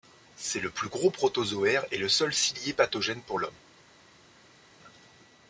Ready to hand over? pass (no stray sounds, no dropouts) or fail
pass